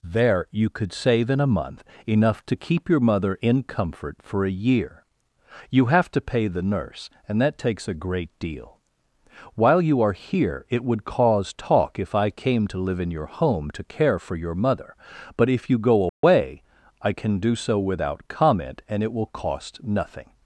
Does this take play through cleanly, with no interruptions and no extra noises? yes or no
no